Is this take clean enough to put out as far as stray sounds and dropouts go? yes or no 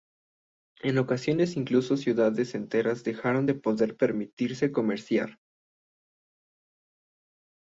yes